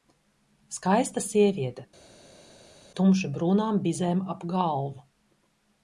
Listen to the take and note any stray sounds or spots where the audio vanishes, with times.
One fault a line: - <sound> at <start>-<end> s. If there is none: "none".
none